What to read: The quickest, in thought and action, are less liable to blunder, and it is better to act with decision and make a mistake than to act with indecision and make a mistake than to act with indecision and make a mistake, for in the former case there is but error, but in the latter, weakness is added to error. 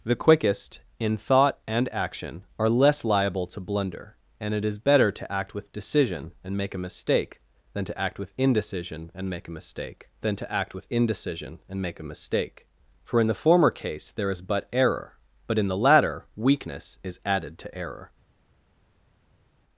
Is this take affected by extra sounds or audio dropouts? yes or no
no